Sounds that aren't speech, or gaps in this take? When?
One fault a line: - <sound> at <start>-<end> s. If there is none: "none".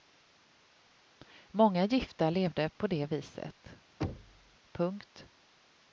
- thud at 4.0-4.6 s